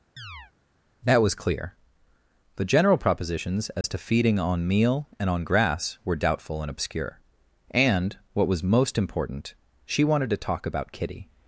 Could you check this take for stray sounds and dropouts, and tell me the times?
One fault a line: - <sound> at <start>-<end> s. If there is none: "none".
- chirp at 0.2-0.5 s
- dropout at 3.8-3.8 s